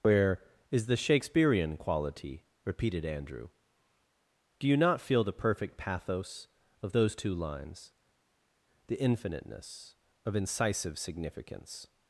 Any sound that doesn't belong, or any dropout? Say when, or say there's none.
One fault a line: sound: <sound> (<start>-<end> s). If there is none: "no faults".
no faults